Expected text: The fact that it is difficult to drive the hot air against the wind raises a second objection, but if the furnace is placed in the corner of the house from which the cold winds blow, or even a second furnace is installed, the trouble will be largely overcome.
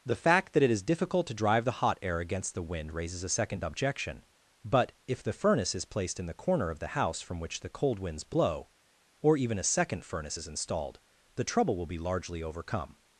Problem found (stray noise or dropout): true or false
false